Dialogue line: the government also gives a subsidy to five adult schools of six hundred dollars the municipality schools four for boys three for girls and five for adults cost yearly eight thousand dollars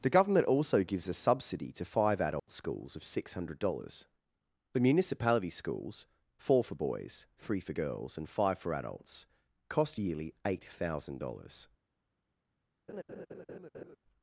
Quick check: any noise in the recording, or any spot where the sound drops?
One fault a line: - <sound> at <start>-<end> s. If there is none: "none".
- dropout at 2.4-2.5 s
- laugh at 12.9-14.0 s